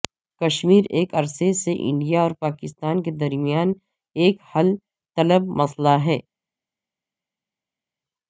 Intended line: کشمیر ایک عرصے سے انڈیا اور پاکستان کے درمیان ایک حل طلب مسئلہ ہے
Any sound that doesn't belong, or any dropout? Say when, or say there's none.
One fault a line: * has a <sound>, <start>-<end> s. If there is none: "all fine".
all fine